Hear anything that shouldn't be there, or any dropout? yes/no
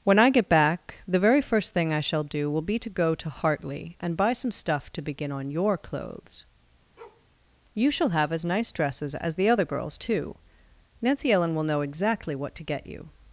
yes